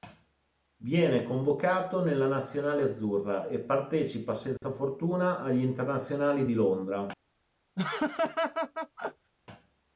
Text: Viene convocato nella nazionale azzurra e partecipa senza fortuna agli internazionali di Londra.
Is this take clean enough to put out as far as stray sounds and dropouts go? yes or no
no